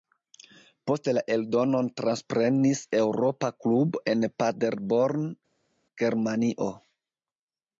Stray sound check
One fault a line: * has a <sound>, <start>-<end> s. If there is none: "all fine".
all fine